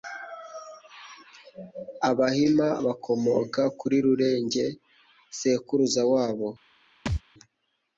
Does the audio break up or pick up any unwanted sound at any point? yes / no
yes